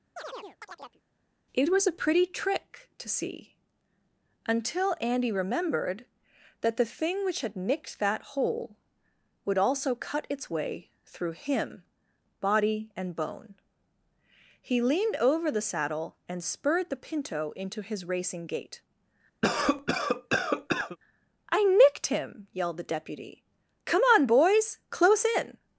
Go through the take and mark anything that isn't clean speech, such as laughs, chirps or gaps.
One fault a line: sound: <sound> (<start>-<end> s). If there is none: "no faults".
sound: chirp (0.2-1.0 s)
sound: cough (19.4-21.0 s)